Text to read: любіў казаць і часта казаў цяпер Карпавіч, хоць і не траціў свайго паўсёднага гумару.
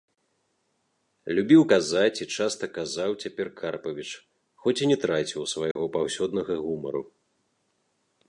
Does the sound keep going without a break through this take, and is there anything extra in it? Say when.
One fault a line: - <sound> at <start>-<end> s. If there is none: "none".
- dropout at 5.7-5.8 s